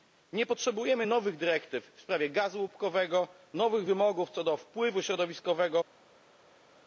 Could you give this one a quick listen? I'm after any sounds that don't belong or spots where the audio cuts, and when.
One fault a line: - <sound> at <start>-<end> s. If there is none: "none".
none